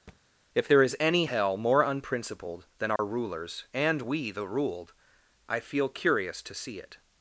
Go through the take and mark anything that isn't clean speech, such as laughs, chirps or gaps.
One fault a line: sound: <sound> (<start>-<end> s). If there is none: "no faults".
sound: thud (0.1-0.2 s)
sound: dropout (3.0-3.0 s)